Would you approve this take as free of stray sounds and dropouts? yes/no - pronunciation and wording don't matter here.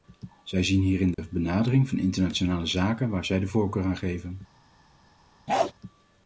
no